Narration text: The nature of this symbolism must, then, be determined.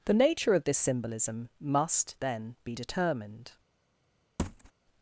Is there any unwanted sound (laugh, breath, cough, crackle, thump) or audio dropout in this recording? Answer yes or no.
yes